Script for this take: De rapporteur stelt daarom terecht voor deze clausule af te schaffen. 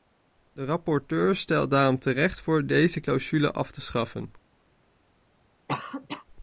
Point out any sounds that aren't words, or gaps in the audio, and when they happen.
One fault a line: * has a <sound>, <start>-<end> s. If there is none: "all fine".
* has a cough, 5.7-6.2 s